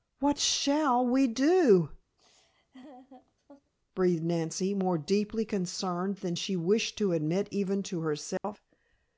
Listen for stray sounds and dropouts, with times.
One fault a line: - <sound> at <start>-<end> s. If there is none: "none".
- laugh at 2.2-3.7 s
- dropout at 8.4-8.4 s